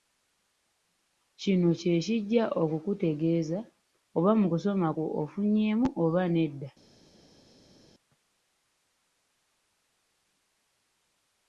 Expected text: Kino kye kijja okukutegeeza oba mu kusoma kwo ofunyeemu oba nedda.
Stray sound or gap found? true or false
false